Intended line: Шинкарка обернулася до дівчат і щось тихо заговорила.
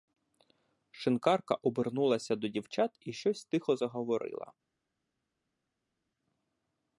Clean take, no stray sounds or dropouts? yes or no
yes